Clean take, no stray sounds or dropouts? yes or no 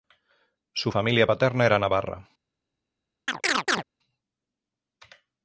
no